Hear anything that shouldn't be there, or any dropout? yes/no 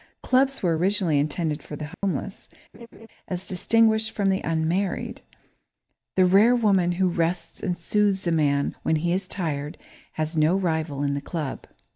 yes